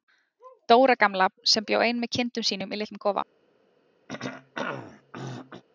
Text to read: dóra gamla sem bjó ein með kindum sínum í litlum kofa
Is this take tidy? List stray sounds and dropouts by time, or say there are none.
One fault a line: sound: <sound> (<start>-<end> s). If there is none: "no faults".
sound: throat clearing (4.1-5.6 s)